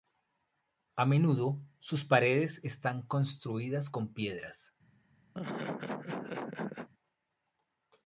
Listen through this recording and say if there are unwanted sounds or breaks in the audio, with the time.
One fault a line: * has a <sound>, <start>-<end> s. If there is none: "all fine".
* has a laugh, 5.3-6.9 s